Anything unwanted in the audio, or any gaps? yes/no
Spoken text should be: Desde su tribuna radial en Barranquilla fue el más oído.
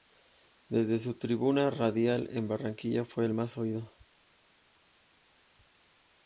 no